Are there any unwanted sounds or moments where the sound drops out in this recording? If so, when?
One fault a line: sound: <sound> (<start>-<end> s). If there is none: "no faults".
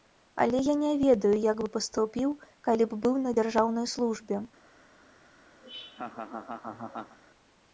sound: laugh (5.6-7.2 s)